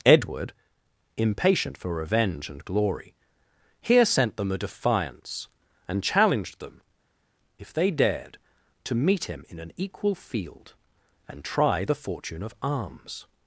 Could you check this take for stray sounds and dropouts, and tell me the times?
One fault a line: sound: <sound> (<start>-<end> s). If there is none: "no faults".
no faults